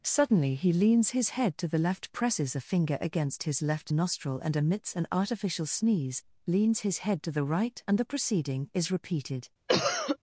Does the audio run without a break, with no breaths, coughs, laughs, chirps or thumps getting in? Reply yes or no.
no